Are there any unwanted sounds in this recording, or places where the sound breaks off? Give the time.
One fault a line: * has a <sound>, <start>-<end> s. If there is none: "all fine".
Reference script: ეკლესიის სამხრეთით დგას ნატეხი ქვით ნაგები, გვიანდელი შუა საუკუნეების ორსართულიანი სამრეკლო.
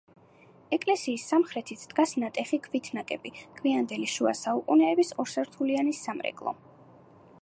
all fine